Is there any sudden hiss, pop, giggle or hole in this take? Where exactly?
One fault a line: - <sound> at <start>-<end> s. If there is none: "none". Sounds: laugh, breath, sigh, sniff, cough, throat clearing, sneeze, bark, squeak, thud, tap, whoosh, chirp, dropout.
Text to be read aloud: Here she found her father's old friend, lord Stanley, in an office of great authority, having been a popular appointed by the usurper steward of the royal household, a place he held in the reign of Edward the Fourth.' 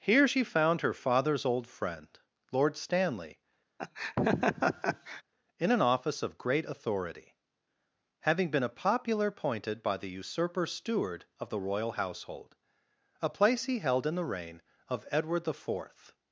- laugh at 3.8-5.2 s